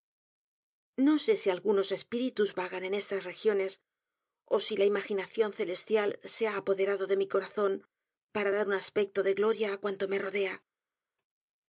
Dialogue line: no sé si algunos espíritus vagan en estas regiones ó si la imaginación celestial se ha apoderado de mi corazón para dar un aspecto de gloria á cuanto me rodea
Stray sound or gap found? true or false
false